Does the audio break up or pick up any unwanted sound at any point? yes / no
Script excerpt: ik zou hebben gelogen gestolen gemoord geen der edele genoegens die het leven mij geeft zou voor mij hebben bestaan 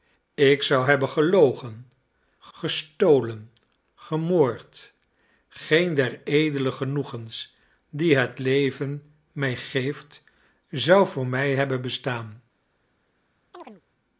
yes